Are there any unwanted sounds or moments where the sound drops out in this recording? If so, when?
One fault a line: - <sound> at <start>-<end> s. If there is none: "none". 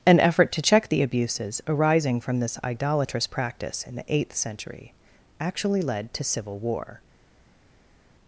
none